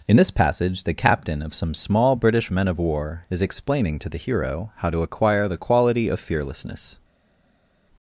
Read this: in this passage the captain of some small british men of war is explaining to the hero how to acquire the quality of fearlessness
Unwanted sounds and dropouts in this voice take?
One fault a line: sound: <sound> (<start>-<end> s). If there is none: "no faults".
no faults